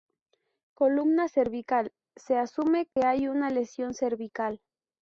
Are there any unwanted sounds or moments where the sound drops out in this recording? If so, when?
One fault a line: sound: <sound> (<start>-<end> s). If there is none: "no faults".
sound: dropout (2.9-3.0 s)